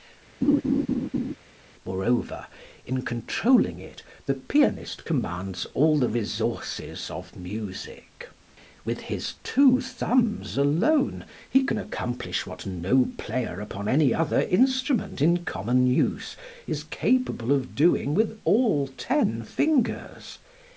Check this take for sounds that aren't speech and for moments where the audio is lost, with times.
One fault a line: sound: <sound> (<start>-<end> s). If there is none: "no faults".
sound: laugh (0.4-1.3 s)